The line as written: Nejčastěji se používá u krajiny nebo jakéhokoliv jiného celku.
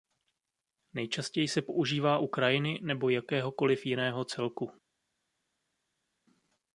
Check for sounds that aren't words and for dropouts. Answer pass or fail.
pass